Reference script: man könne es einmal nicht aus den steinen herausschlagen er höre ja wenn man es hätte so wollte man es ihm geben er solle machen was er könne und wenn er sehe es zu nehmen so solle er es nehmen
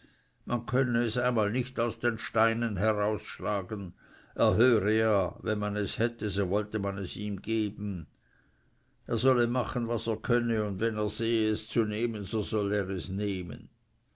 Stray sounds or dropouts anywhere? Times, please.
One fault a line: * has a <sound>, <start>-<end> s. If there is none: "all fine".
all fine